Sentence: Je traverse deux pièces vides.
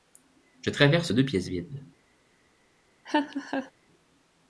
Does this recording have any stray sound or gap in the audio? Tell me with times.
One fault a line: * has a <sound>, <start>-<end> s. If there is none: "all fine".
* has a laugh, 3.1-3.7 s